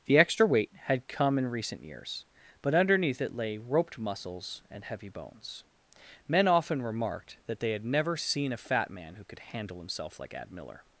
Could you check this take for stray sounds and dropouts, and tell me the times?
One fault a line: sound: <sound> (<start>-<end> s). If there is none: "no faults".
no faults